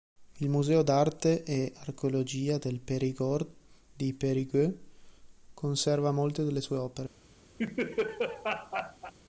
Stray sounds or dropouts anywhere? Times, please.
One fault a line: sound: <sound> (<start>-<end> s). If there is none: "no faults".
sound: laugh (7.6-9.1 s)